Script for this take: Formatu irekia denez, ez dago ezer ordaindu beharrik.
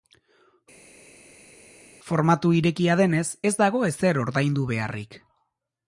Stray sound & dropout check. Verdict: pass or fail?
pass